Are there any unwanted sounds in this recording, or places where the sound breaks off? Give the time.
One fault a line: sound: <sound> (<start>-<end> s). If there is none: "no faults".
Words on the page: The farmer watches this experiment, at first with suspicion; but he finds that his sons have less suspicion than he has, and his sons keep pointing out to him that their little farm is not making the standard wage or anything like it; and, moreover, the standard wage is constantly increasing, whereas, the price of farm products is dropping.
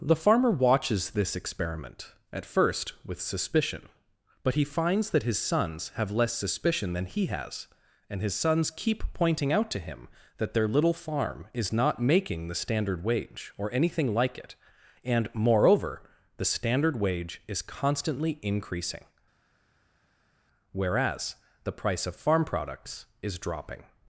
no faults